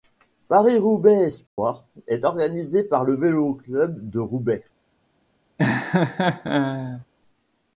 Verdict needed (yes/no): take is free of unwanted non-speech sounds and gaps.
no